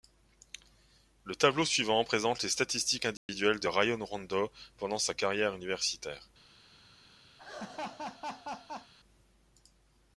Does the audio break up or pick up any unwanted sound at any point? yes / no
yes